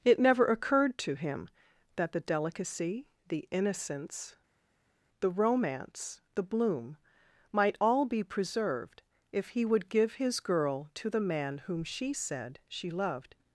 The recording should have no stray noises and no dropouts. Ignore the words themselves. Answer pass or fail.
pass